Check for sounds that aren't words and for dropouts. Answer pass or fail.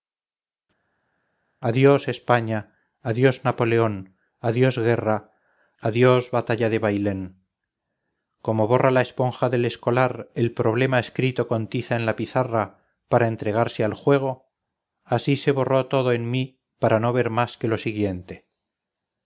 pass